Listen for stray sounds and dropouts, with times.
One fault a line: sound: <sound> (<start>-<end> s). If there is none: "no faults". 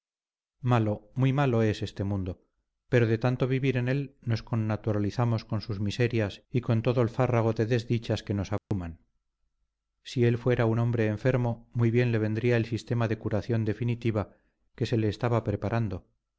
sound: dropout (8.6-8.7 s)